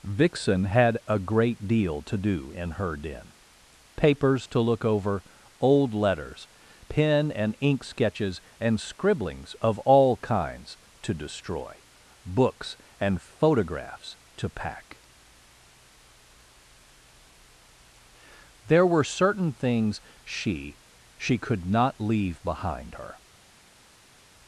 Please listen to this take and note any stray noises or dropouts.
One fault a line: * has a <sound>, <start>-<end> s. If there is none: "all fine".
all fine